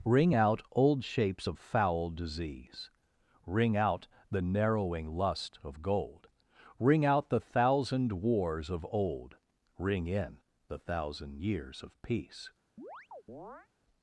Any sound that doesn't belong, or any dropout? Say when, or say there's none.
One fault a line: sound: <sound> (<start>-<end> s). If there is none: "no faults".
sound: chirp (12.8-13.7 s)